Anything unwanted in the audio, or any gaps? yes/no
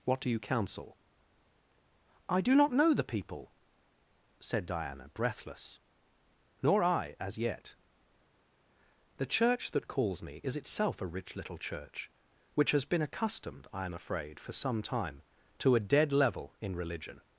no